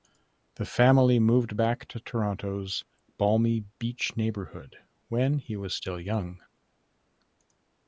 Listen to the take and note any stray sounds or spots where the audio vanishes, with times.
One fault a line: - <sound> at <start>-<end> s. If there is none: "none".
none